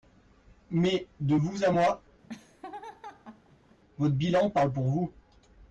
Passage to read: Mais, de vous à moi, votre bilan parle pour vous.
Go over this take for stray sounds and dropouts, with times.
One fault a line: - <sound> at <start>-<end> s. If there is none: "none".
- laugh at 2.2-3.8 s